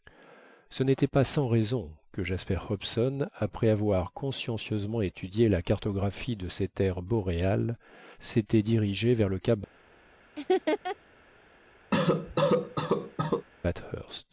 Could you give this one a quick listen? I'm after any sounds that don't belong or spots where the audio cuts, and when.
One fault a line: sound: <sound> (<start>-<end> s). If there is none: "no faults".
sound: laugh (10.4-11.0 s)
sound: cough (11.9-13.5 s)